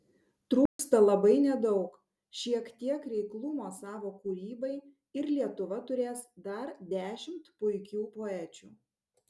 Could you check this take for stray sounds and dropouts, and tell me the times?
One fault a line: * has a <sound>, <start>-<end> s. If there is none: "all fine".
* has a dropout, 0.7-0.8 s